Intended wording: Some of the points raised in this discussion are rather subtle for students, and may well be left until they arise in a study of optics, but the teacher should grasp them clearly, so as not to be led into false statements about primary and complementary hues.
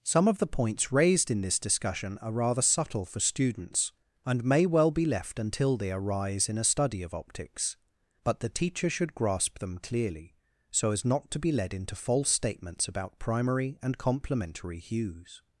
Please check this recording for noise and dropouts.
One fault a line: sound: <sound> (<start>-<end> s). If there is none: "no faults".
no faults